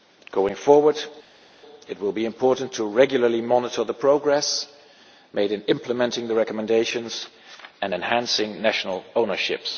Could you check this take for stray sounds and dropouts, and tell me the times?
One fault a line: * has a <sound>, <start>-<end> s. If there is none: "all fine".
all fine